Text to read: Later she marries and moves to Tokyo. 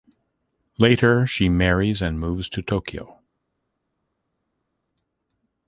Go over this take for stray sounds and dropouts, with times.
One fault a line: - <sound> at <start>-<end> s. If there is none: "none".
none